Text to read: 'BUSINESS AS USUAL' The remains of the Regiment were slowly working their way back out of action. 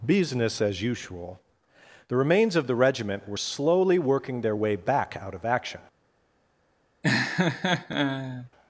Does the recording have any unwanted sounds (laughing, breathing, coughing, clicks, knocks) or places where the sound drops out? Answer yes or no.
yes